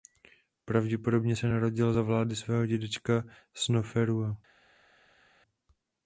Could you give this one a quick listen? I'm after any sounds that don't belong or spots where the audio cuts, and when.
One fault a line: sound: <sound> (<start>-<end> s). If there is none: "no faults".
no faults